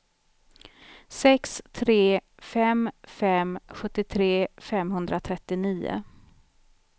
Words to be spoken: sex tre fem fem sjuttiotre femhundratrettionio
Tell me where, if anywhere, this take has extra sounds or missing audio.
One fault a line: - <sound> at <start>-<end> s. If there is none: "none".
none